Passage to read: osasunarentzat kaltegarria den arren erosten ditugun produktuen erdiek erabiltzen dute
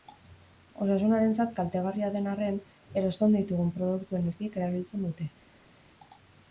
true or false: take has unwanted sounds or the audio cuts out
false